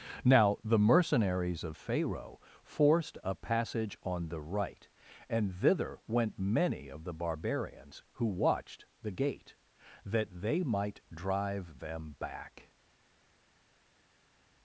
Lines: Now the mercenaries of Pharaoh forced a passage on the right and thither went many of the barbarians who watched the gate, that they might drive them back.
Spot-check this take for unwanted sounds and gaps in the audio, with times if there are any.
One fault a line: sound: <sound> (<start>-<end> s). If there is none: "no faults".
no faults